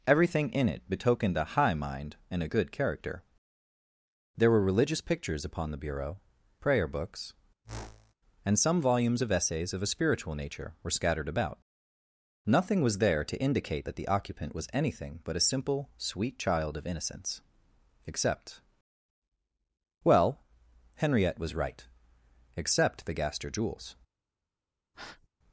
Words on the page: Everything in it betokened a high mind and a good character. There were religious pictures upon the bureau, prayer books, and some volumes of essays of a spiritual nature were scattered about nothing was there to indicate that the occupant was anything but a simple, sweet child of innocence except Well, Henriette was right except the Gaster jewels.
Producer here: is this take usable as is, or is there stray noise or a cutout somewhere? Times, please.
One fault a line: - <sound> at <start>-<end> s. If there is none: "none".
- whoosh at 7.6-8.1 s
- breath at 24.9-25.3 s